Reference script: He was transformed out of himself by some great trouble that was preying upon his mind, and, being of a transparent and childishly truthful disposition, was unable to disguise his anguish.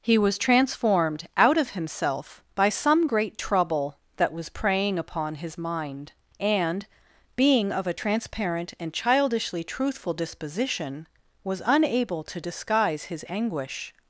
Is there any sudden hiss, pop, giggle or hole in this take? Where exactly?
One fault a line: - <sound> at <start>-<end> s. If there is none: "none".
none